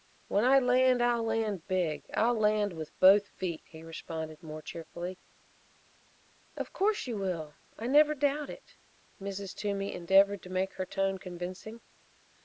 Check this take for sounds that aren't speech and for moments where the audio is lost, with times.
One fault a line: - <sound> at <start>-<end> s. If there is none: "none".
none